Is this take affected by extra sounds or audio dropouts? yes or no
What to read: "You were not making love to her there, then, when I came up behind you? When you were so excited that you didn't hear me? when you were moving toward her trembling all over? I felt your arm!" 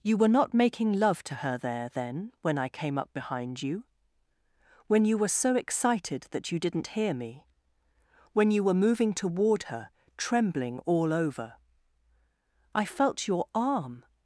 no